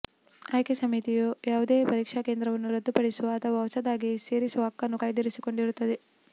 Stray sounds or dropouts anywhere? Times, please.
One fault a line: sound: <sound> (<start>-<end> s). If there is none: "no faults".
no faults